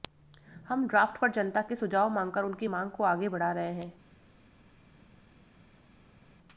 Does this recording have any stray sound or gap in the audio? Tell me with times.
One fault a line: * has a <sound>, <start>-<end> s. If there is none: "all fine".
all fine